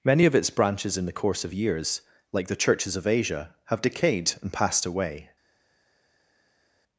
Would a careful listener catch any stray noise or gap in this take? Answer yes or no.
no